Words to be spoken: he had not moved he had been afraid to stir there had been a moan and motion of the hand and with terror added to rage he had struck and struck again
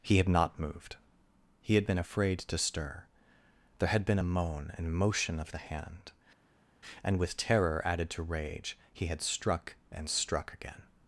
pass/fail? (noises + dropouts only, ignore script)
pass